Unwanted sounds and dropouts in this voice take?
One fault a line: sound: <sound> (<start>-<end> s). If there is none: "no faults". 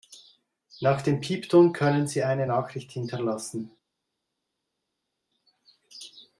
no faults